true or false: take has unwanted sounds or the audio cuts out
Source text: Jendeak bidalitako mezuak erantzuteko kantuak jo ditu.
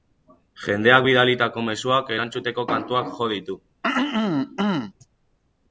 true